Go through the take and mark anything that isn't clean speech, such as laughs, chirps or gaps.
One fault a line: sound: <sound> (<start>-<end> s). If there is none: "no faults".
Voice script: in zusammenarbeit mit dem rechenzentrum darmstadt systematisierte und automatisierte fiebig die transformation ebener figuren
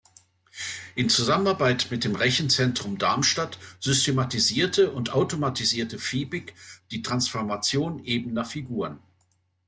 no faults